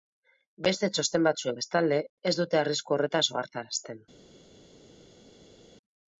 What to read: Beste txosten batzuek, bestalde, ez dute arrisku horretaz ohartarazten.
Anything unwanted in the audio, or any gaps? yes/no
no